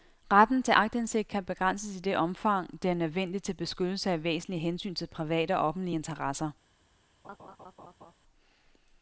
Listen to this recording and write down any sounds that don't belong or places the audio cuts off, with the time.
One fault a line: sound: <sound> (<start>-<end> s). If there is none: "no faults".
sound: laugh (7.2-8.1 s)